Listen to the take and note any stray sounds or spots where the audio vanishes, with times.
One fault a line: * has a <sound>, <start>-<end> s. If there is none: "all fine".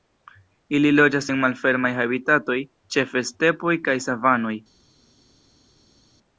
all fine